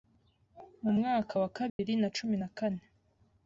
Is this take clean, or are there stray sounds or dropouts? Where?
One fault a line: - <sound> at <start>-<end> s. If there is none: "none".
- dropout at 1.7-1.8 s